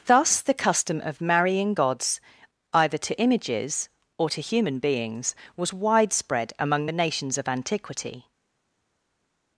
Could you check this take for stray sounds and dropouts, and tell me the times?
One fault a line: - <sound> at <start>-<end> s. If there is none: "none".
none